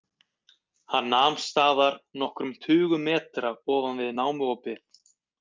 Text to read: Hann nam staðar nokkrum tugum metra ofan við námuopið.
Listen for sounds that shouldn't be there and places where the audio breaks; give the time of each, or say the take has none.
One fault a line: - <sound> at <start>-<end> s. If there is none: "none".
none